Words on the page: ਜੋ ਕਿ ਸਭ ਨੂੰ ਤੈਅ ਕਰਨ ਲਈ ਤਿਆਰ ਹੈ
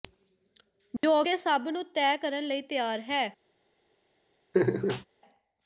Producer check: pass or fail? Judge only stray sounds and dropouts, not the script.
fail